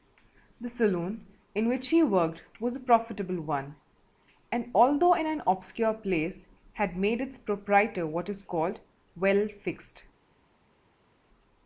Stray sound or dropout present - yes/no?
no